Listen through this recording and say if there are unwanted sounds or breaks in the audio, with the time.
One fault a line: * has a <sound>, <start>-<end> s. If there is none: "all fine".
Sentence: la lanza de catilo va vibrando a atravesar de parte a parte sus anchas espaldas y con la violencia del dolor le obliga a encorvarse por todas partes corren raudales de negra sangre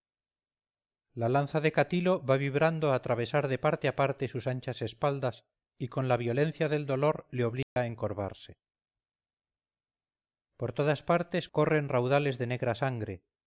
* has a dropout, 7.6-7.8 s